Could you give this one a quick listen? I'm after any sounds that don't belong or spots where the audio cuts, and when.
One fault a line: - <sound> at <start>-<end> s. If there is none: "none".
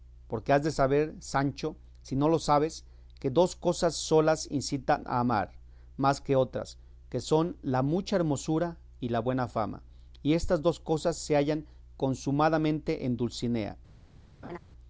- laugh at 14.4-14.6 s